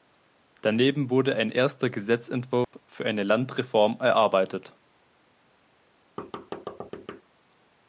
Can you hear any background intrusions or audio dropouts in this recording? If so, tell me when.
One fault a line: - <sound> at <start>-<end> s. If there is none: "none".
- dropout at 2.6-2.7 s
- thud at 6.2-7.2 s